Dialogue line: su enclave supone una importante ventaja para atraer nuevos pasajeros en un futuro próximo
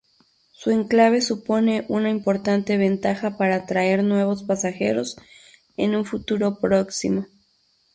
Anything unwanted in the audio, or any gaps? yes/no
no